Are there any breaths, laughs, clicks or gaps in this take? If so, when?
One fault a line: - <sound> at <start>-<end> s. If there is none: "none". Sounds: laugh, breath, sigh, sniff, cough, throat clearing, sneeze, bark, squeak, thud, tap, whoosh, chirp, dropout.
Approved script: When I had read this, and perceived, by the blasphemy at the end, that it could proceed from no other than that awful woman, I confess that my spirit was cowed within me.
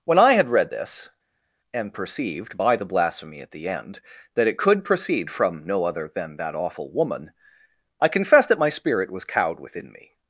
none